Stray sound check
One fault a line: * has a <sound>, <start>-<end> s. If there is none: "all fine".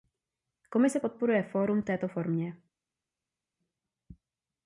all fine